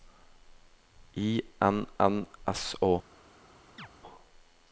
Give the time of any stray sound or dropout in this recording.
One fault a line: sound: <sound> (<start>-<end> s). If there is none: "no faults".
sound: chirp (3.8-3.9 s)